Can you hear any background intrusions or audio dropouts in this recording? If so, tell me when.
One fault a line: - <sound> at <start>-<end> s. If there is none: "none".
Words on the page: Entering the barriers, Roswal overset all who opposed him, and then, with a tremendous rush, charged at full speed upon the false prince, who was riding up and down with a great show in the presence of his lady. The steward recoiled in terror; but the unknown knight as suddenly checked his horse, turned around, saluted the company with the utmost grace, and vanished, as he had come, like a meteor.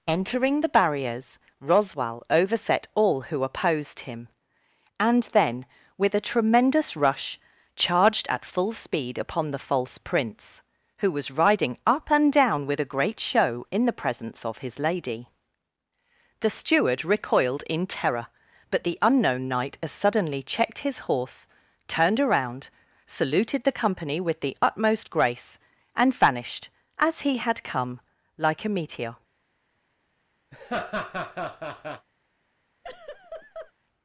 - laugh at 30.5-32.1 s
- laugh at 32.8-33.7 s